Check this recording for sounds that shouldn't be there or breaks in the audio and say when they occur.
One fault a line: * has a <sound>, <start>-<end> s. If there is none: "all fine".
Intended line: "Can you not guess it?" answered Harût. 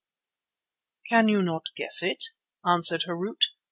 all fine